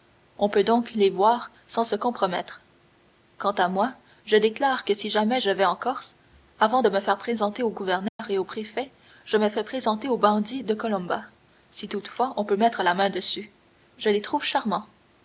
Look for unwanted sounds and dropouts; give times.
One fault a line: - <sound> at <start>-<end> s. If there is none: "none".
- dropout at 8.1-8.2 s